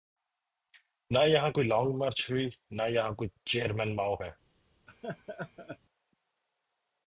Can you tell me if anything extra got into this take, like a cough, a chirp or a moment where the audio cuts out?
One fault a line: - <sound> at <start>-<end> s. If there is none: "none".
- laugh at 4.9-5.8 s